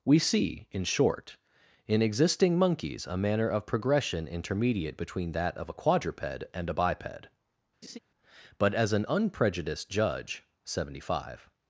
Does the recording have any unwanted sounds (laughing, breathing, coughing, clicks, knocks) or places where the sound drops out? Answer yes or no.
yes